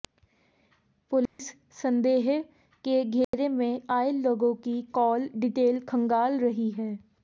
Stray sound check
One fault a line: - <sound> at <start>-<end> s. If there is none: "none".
- dropout at 1.3-1.4 s
- dropout at 3.2-3.3 s